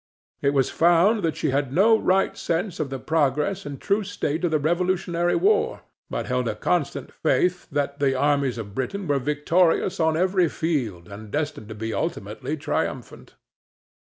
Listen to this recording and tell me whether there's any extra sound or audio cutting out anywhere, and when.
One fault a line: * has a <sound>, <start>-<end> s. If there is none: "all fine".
all fine